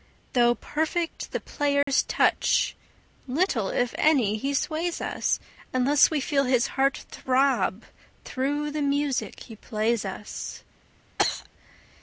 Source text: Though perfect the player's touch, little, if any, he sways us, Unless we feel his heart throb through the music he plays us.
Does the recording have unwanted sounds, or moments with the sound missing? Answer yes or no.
yes